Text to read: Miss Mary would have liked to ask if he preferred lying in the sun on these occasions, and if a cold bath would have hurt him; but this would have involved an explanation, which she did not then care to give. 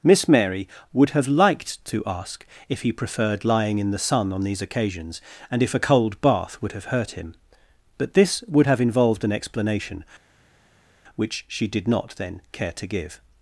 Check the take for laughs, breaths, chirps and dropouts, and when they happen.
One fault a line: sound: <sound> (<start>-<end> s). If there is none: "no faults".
no faults